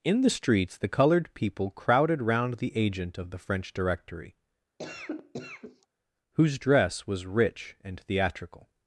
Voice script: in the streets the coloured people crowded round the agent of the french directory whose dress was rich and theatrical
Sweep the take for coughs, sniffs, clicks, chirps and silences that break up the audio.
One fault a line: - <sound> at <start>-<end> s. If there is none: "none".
- cough at 4.8-5.9 s